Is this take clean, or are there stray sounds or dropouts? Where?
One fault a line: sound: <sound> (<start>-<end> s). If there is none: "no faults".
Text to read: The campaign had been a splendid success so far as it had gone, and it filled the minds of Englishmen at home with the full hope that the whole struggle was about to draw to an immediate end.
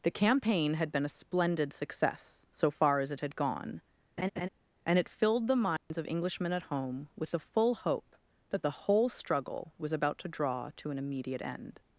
sound: laugh (4.2-4.5 s)
sound: dropout (5.8-5.9 s)